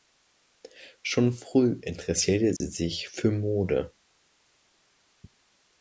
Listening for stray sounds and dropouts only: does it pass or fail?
fail